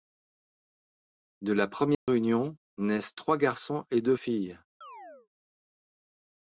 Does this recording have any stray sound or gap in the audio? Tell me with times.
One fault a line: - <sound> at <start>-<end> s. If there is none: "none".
- dropout at 1.9-2.1 s
- chirp at 4.8-5.3 s